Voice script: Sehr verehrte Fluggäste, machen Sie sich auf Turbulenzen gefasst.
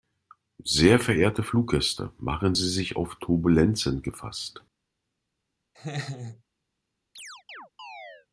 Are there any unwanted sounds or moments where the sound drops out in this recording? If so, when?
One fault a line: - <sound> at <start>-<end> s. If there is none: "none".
- laugh at 5.7-6.4 s
- chirp at 7.2-8.3 s